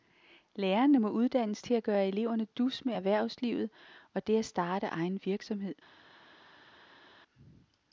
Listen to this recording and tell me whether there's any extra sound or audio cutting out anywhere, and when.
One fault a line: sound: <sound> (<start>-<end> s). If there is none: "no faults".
no faults